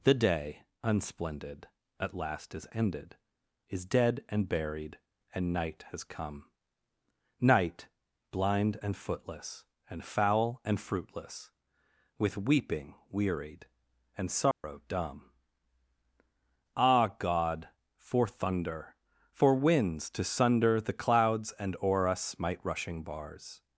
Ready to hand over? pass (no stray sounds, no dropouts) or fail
fail